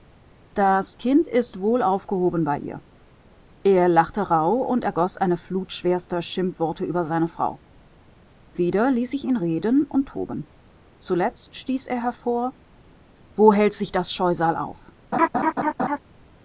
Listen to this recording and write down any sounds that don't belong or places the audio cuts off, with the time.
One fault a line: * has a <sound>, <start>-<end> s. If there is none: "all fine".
* has a laugh, 15.1-16.0 s